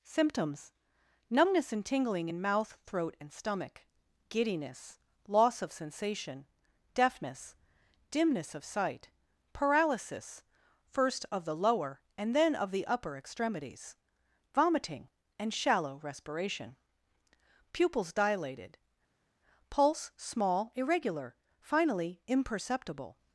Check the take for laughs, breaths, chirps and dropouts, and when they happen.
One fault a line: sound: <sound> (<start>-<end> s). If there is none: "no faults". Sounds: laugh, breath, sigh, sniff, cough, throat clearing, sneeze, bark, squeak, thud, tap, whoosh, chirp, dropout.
no faults